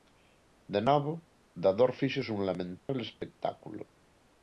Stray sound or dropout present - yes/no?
yes